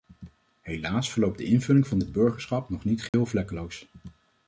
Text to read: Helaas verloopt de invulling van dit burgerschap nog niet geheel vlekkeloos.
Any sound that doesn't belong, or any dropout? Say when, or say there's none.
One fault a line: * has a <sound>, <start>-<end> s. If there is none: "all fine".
* has a dropout, 3.1-3.1 s